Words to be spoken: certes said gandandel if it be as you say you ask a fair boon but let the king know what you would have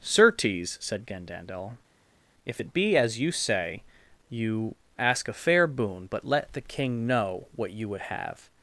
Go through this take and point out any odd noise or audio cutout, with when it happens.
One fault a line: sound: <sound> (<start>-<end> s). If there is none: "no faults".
no faults